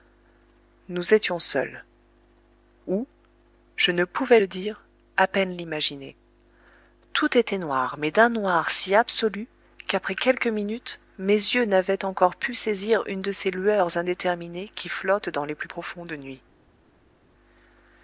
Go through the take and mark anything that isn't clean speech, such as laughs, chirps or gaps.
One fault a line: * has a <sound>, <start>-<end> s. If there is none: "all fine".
all fine